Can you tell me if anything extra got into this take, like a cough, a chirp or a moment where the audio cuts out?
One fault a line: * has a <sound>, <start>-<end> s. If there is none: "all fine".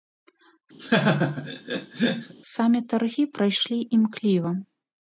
* has a laugh, 0.8-2.3 s